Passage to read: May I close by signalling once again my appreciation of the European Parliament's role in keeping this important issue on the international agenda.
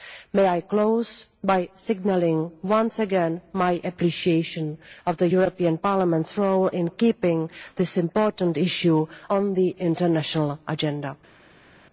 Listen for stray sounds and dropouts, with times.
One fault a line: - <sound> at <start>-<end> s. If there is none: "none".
none